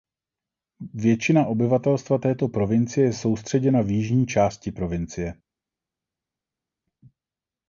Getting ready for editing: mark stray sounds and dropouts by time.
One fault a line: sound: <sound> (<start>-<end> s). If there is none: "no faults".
no faults